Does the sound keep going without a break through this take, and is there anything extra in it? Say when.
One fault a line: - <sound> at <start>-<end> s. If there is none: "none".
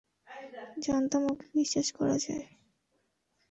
none